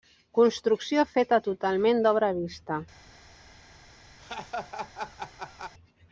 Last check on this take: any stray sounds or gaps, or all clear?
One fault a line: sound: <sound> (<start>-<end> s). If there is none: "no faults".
sound: laugh (4.2-5.7 s)